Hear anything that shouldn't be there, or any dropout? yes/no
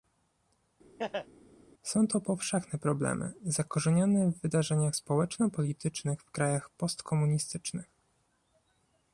yes